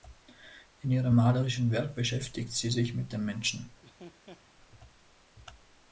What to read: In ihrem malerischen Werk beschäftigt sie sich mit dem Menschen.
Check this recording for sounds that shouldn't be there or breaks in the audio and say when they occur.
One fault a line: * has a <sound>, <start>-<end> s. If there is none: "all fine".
* has a laugh, 3.8-4.5 s